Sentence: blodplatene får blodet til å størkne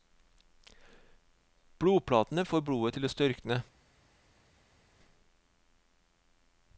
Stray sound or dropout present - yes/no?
no